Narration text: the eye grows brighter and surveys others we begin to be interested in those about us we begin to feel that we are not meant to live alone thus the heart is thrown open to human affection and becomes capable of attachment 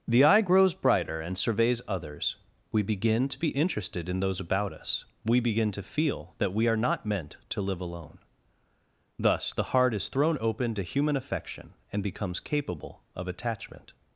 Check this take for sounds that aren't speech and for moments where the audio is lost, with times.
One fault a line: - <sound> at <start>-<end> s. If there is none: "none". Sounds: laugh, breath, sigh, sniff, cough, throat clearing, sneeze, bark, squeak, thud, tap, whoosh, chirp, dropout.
none